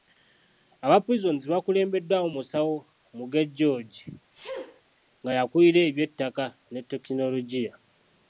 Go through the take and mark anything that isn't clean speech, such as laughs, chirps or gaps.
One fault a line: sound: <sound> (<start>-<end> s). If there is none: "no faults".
sound: sneeze (4.3-4.8 s)